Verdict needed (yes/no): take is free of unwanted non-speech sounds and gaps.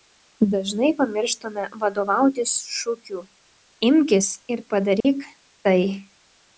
no